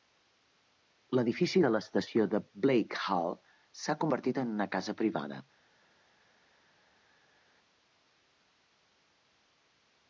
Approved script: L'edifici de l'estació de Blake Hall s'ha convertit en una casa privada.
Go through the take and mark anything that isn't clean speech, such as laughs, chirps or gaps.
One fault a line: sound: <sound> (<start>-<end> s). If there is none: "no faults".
no faults